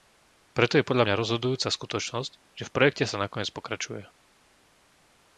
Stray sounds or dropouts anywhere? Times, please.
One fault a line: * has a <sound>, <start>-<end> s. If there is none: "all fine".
all fine